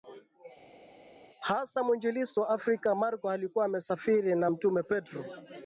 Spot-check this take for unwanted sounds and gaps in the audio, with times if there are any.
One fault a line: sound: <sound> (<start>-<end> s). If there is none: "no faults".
no faults